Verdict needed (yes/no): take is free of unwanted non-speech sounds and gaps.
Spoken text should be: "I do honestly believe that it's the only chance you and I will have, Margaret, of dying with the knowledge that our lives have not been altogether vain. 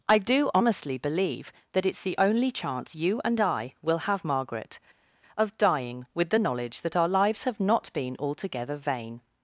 yes